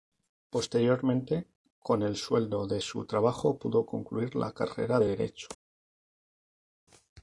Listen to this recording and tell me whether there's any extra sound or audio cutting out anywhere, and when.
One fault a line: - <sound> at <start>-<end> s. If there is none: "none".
none